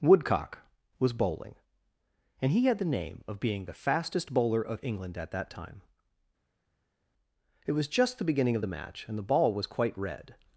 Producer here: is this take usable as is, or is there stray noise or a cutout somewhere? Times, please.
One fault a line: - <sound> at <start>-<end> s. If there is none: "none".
none